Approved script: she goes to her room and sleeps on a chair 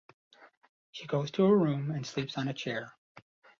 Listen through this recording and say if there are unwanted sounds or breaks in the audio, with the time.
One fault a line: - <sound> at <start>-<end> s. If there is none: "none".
none